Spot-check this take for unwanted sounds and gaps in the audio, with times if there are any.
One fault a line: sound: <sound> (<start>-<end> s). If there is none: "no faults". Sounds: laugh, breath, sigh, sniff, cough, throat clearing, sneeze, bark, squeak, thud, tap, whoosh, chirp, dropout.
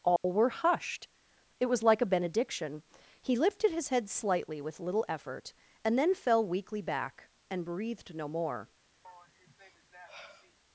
sound: dropout (0.2-0.2 s)
sound: sigh (9.0-10.6 s)